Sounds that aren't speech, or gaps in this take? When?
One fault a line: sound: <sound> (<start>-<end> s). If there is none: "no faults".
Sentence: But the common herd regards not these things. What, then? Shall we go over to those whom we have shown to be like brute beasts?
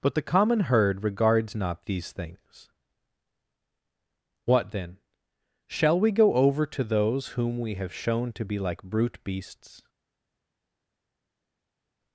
no faults